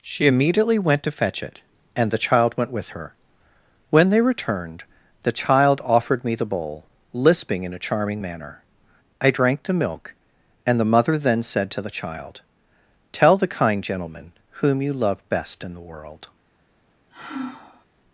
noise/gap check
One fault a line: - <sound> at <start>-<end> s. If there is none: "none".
- sigh at 17.1-17.9 s